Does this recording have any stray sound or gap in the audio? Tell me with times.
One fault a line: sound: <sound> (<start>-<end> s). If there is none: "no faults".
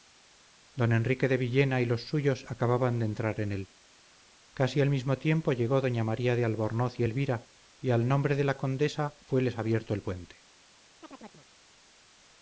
sound: chirp (11.0-11.5 s)